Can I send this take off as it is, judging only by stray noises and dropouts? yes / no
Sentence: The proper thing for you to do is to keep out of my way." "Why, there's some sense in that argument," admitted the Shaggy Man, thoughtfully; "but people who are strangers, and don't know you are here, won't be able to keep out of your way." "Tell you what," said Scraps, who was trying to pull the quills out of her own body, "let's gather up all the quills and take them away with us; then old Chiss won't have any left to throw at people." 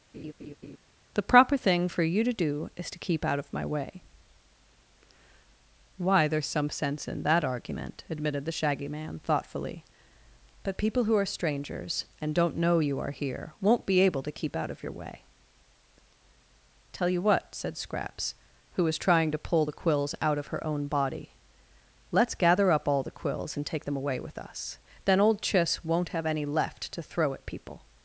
no